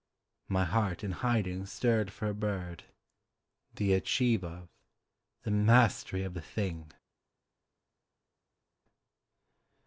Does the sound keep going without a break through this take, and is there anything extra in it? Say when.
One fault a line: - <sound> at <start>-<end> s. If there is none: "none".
none